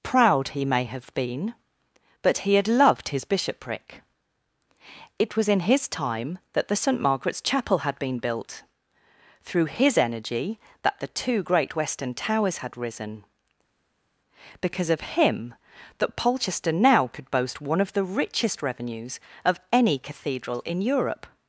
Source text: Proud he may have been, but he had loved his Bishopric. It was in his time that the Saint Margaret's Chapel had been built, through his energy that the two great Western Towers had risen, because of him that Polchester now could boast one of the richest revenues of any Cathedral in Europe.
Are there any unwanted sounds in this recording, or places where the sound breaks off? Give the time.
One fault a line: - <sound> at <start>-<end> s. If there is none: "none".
none